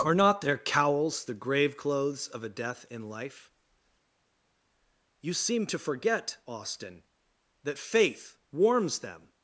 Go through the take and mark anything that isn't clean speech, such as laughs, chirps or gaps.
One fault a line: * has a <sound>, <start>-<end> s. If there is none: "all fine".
all fine